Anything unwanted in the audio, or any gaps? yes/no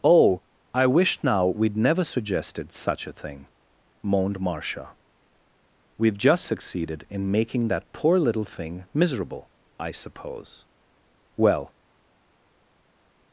no